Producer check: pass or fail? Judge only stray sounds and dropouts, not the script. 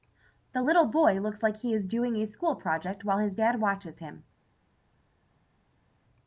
pass